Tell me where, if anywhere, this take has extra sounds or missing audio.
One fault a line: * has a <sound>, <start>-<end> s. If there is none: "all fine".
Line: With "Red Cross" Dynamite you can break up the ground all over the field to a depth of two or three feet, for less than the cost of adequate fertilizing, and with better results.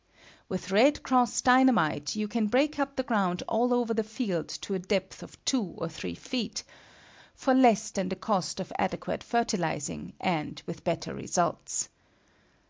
all fine